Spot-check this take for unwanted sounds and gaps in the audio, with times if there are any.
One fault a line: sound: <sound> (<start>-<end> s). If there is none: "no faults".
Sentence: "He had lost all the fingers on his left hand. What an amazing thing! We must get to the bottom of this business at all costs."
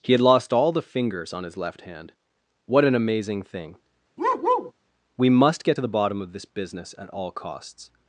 sound: bark (4.2-4.7 s)